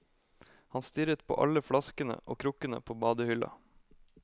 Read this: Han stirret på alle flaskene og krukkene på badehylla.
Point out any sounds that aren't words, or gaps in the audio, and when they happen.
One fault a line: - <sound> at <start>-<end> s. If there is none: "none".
none